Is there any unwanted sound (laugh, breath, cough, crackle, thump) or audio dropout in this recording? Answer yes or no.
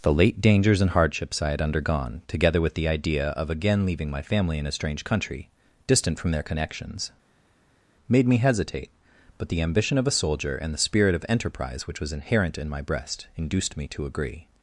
no